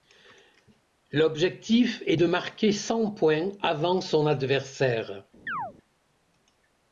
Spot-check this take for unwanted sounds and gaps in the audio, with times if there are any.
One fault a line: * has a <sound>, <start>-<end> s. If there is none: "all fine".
* has a chirp, 5.5-5.7 s